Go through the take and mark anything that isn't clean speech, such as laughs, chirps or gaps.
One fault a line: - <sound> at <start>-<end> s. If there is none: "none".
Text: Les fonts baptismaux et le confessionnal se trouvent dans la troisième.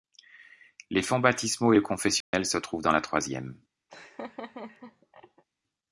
- dropout at 2.2-2.3 s
- laugh at 3.9-5.4 s